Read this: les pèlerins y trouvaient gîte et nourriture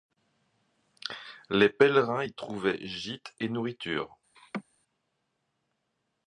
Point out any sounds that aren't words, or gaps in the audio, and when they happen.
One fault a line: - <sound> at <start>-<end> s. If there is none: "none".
- laugh at 4.4-4.6 s